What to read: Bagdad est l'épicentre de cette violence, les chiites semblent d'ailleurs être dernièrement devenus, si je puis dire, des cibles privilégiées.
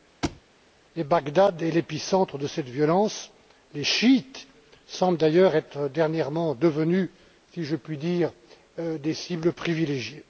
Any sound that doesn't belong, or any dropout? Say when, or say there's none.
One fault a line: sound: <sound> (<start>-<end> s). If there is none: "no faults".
sound: thud (0.2-0.4 s)